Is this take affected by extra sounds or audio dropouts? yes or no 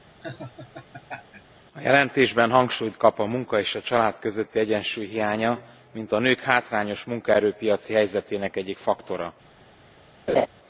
yes